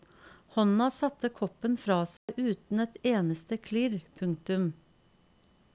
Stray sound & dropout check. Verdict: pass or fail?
fail